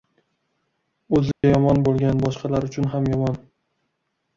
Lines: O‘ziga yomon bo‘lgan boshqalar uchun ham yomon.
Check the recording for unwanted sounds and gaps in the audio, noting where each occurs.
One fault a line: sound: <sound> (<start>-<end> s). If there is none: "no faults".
sound: dropout (1.3-1.4 s)